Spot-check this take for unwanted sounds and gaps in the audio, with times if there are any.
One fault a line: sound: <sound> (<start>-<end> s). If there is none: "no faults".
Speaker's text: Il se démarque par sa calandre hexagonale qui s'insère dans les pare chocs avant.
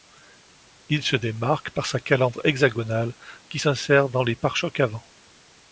no faults